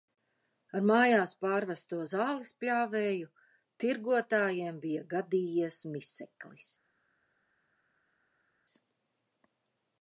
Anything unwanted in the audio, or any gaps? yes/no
no